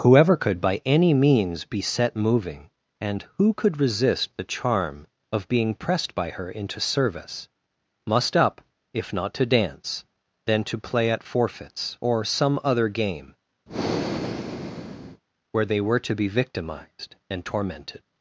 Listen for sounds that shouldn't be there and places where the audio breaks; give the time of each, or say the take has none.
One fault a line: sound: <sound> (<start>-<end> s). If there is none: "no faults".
sound: breath (13.7-15.2 s)